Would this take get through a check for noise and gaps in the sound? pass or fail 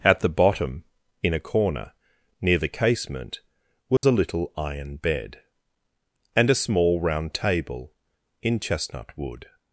fail